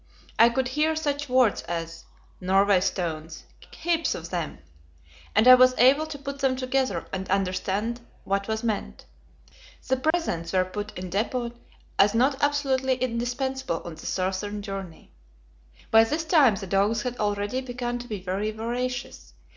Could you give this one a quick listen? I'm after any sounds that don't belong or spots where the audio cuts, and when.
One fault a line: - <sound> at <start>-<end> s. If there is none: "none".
- dropout at 10.1-10.1 s